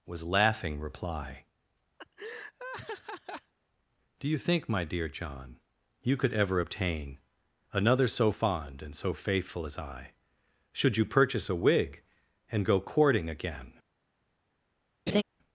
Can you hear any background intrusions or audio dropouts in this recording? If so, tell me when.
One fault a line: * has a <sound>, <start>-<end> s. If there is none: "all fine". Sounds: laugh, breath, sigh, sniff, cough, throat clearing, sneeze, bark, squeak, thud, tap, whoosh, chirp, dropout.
* has a laugh, 2.0-3.5 s
* has a laugh, 15.1-15.2 s